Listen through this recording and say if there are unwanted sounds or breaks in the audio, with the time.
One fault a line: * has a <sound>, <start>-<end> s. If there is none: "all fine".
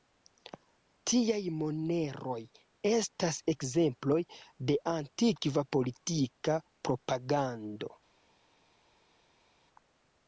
all fine